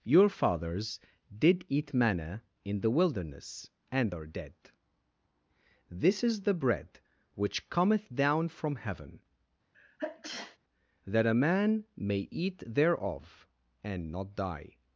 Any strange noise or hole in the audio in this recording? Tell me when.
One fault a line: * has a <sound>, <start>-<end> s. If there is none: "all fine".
* has a sneeze, 9.7-10.6 s